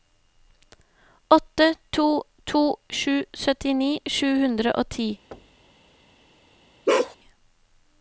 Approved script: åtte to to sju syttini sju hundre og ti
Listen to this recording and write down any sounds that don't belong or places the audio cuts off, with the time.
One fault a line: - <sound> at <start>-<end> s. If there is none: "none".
- thud at 5.3-5.7 s
- bark at 6.9-7.2 s